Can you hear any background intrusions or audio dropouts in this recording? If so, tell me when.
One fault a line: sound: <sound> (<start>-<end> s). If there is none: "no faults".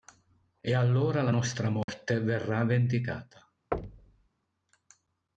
sound: dropout (1.8-1.9 s)
sound: thud (3.7-4.3 s)